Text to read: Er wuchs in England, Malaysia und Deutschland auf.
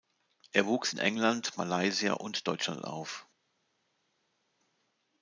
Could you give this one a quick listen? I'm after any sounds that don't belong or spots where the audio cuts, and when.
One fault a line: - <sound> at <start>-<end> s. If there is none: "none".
none